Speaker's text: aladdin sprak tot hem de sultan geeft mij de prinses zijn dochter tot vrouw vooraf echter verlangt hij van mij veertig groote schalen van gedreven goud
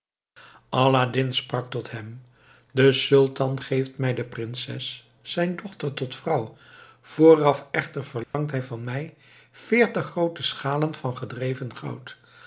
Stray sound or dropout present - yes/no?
yes